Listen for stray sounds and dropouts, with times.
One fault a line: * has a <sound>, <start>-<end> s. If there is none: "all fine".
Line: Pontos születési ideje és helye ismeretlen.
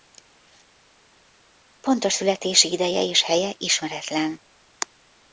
all fine